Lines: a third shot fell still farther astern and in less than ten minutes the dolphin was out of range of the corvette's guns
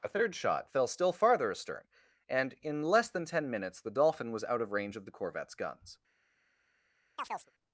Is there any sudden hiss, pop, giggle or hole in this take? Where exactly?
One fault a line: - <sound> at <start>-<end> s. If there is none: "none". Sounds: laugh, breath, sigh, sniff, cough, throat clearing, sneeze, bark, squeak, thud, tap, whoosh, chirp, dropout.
- chirp at 7.2-7.5 s